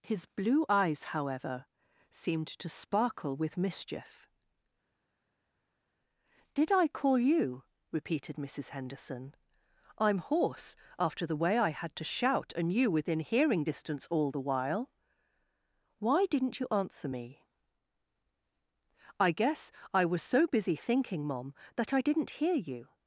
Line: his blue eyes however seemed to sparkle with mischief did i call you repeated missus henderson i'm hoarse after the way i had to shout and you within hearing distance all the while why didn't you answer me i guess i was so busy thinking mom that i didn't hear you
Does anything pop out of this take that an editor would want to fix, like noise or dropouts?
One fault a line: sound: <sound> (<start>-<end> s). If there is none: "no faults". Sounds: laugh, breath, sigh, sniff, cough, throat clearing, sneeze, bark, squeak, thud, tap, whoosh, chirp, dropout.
no faults